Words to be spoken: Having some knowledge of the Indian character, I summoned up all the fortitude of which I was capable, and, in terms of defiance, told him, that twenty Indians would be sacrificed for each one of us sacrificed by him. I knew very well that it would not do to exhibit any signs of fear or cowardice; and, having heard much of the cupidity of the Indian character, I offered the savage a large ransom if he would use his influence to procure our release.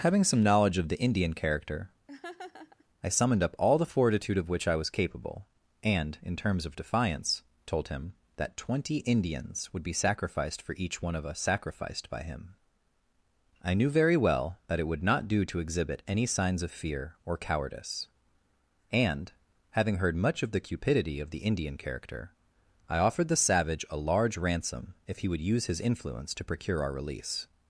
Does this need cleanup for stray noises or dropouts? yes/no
yes